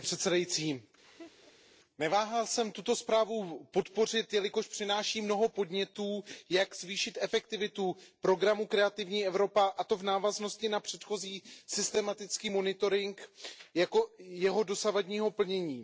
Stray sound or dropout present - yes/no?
yes